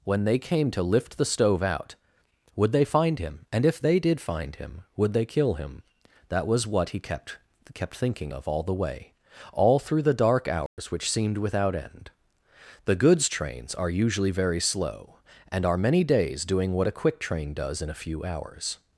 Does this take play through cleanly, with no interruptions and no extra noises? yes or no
no